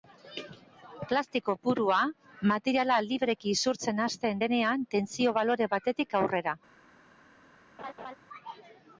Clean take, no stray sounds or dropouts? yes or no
no